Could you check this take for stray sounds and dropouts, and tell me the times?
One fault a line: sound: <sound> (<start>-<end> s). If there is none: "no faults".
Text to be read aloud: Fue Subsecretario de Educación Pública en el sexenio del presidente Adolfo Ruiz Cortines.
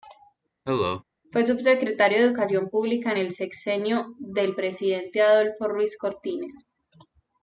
sound: cough (0.7-1.0 s)